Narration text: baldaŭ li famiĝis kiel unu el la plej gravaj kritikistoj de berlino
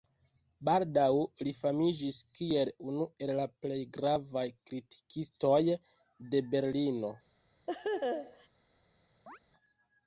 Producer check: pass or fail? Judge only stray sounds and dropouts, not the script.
fail